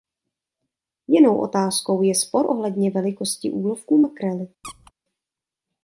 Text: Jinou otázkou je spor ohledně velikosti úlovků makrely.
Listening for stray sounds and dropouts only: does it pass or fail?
fail